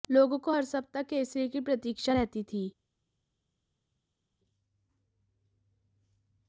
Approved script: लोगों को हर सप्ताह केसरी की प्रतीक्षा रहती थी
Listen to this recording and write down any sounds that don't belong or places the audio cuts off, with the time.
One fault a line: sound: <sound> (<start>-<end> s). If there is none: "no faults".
no faults